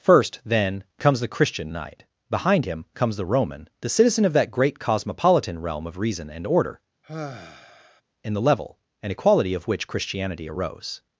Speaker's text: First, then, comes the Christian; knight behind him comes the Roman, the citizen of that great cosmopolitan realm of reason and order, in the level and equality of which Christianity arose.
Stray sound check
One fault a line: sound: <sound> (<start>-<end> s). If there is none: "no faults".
sound: sigh (7.0-8.0 s)